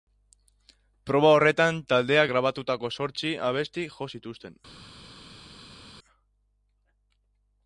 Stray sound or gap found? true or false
false